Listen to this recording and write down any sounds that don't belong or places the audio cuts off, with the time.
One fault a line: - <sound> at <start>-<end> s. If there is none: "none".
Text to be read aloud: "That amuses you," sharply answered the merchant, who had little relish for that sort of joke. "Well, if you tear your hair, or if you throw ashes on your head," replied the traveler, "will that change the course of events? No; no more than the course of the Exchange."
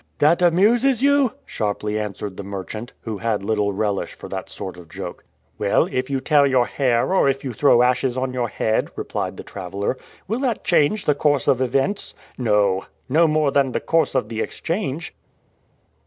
none